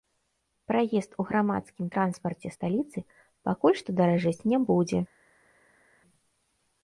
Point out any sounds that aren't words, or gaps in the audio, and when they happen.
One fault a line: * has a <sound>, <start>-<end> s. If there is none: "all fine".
all fine